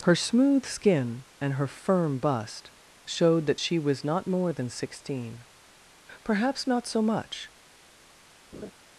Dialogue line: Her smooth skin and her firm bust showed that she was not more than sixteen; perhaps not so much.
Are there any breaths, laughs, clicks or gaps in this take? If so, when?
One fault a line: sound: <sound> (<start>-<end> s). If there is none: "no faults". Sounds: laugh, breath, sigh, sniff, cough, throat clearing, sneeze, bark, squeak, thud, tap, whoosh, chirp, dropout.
sound: laugh (8.5-8.7 s)